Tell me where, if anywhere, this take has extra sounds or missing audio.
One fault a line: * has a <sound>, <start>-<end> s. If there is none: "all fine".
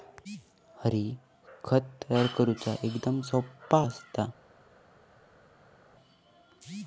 all fine